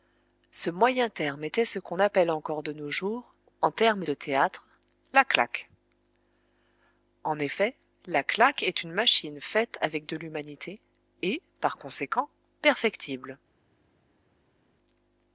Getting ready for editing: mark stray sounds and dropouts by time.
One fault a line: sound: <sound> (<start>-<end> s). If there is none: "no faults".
no faults